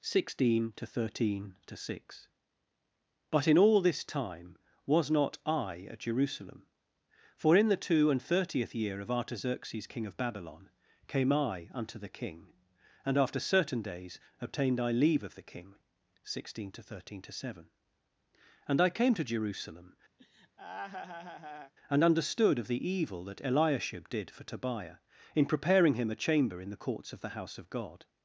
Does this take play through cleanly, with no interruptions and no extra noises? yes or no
no